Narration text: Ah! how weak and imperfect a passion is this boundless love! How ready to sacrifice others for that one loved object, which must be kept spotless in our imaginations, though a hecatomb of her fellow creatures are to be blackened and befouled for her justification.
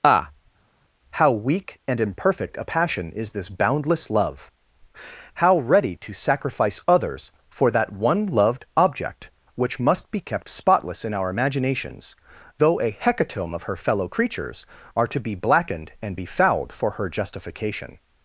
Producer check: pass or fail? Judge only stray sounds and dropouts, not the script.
pass